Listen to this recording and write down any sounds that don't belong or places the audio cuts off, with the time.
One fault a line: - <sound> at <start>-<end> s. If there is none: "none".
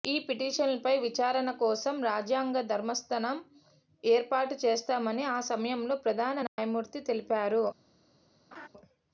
- dropout at 6.5-6.6 s
- laugh at 8.5-8.7 s